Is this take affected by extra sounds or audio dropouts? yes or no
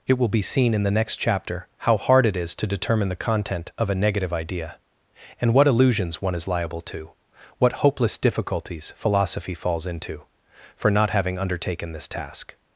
no